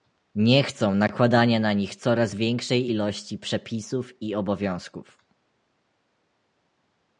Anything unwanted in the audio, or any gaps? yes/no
no